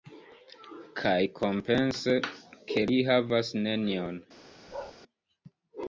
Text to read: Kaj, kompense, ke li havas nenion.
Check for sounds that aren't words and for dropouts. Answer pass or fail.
fail